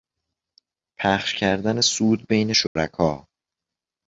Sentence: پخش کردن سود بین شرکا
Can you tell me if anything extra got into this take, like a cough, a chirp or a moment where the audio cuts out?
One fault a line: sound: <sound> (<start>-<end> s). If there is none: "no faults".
sound: dropout (2.7-2.8 s)